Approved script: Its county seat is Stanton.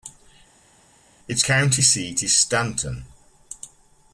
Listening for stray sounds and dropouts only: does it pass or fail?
pass